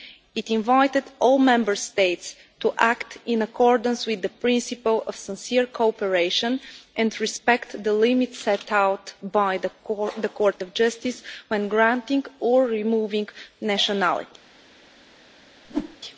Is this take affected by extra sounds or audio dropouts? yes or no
yes